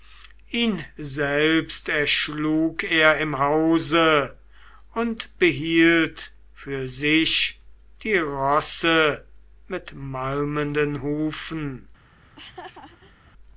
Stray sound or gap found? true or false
true